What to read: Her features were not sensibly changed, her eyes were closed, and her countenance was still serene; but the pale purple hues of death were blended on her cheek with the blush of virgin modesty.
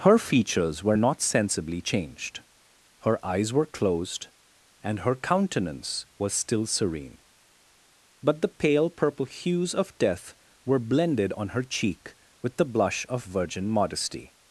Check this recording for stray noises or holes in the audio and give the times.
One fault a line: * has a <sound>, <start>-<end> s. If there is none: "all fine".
all fine